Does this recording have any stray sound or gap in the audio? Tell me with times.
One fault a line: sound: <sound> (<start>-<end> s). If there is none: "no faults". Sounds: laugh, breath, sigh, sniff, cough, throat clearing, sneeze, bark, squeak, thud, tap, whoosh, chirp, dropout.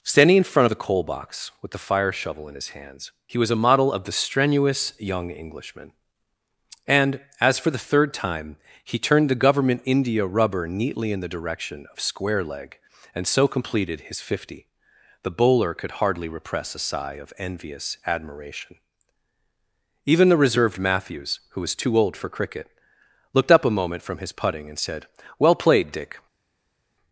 no faults